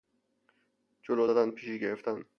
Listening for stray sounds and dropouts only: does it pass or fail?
pass